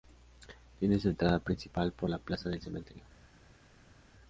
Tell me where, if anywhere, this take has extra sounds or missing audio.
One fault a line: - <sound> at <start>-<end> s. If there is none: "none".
none